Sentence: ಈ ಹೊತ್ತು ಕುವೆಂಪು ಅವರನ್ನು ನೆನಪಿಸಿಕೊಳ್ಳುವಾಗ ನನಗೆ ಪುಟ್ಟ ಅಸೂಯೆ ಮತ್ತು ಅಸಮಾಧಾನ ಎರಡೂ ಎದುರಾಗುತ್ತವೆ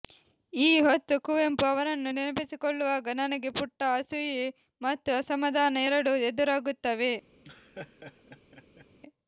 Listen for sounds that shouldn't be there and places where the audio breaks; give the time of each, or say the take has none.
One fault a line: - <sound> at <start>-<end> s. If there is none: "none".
- laugh at 7.4-8.9 s